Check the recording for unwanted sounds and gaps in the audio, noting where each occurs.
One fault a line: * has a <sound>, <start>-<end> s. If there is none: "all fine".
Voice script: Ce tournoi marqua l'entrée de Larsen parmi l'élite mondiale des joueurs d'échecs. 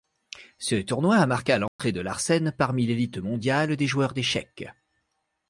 * has a dropout, 1.7-1.8 s